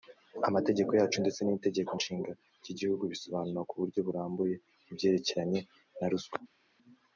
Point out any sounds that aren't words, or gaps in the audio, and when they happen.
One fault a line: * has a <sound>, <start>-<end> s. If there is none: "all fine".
all fine